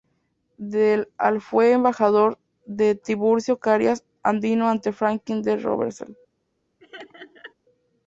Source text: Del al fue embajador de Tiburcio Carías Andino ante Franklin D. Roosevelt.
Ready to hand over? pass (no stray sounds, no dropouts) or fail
fail